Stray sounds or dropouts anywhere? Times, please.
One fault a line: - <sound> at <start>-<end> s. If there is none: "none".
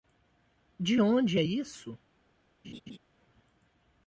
- laugh at 2.6-3.0 s